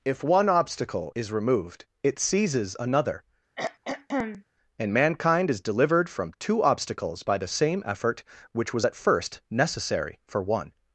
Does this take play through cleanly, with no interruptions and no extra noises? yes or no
no